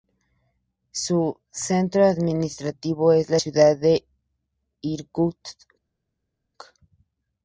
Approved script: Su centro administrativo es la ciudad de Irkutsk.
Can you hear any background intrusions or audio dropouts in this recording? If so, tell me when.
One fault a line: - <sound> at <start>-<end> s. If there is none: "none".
none